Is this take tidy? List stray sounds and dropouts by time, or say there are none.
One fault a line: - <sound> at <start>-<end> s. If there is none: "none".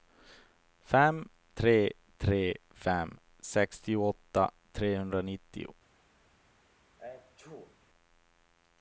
- sneeze at 7.0-7.8 s